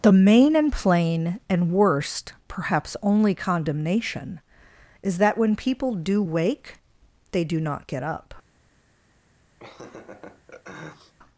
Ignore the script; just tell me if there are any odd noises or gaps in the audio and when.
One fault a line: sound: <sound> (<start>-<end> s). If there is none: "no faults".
sound: laugh (9.6-11.1 s)